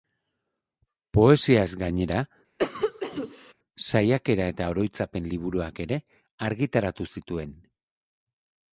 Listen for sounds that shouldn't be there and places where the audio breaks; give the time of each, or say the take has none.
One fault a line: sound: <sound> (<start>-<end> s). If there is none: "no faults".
sound: cough (2.6-3.5 s)